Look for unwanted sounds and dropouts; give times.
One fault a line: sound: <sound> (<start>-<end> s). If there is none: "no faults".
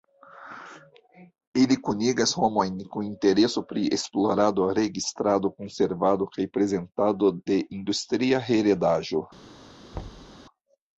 sound: thud (9.9-10.4 s)